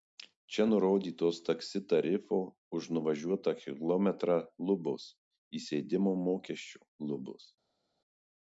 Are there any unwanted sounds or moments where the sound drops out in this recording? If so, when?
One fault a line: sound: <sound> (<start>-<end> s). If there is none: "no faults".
no faults